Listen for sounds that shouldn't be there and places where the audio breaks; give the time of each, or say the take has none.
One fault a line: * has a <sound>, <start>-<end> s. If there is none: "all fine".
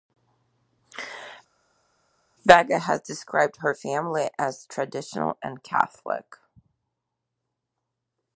all fine